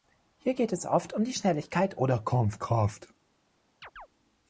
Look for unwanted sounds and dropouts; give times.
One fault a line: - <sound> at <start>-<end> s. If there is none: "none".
- chirp at 3.8-4.1 s